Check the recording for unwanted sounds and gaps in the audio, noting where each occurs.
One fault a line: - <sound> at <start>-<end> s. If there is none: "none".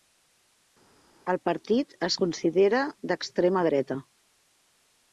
none